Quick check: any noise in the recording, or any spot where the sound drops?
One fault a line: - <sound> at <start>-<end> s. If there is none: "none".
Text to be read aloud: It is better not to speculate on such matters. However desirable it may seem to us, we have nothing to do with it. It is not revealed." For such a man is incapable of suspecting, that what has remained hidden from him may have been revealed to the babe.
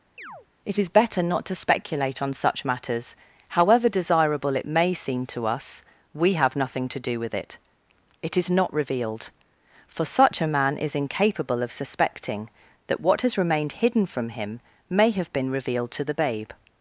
- chirp at 0.2-0.5 s